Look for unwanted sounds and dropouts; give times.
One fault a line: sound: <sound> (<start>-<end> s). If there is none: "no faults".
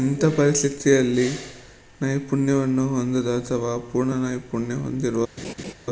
sound: laugh (5.4-5.7 s)